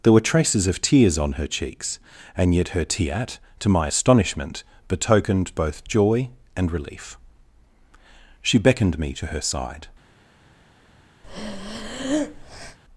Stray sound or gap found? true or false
true